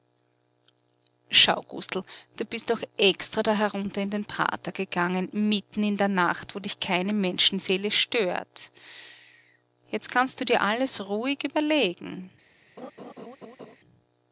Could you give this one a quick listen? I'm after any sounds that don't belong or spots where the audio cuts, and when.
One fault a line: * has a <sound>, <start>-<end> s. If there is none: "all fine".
* has a laugh, 12.8-13.8 s